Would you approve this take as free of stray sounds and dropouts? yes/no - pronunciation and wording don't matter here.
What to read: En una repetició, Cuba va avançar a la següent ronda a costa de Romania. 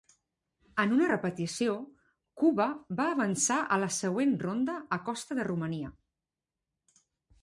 yes